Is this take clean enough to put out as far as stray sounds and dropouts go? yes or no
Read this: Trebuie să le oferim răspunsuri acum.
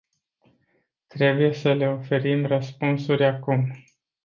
yes